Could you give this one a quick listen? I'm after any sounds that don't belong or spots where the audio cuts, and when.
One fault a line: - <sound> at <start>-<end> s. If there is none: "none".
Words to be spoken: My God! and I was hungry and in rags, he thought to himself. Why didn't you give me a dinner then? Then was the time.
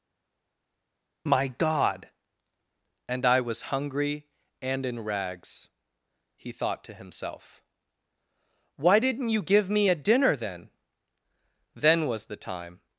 none